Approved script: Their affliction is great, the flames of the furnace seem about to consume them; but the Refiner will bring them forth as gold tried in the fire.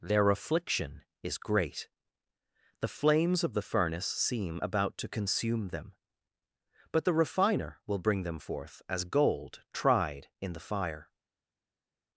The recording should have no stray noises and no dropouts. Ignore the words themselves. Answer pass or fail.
pass